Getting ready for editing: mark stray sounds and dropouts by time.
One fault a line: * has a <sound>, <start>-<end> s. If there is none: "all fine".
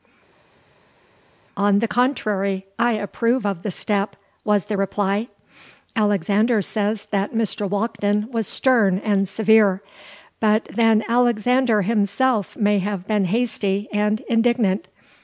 all fine